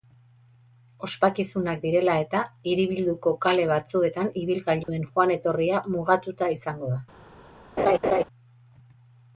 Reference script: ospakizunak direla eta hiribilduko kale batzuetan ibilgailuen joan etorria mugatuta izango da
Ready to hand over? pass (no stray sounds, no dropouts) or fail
fail